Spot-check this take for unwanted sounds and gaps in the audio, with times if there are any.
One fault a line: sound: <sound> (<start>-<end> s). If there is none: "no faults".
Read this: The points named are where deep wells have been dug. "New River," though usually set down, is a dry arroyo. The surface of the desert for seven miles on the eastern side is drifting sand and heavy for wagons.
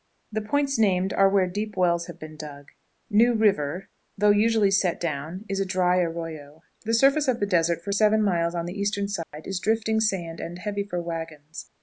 sound: dropout (9.2-9.3 s)